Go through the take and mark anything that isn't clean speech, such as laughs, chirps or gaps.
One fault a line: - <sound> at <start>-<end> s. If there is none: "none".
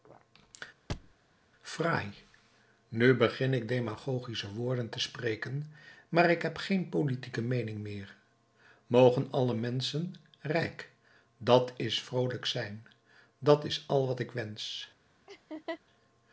- thud at 0.9-1.1 s
- laugh at 15.3-15.8 s